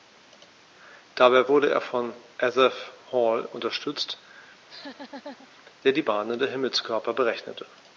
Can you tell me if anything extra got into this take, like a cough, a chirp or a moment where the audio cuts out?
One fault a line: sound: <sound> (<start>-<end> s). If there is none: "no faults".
sound: laugh (4.6-5.5 s)